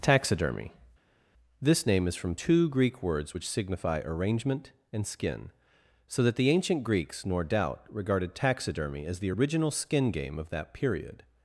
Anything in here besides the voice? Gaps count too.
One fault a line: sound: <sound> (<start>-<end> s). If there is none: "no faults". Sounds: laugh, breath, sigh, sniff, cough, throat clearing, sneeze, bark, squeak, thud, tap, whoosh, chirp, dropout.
no faults